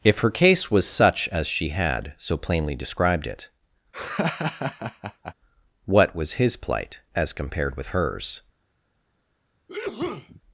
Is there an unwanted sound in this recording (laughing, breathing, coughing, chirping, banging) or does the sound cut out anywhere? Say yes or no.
yes